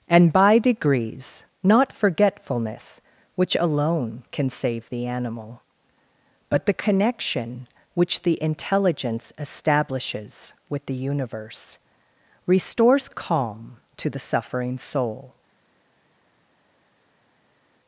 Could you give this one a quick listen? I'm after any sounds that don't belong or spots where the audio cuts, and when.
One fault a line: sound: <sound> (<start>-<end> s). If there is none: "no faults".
no faults